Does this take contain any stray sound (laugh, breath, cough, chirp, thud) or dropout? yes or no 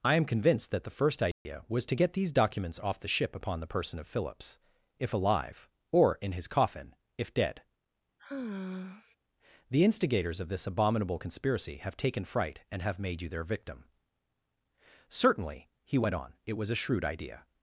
yes